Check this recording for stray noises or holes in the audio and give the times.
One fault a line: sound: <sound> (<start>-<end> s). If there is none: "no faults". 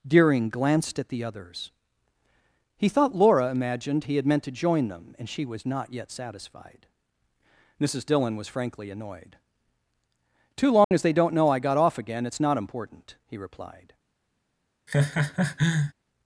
sound: dropout (10.8-10.9 s)
sound: laugh (14.9-15.9 s)